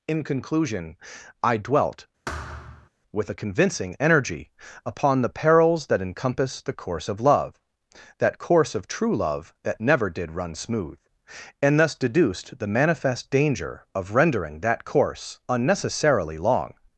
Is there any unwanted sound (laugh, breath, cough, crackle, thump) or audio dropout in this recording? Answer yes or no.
yes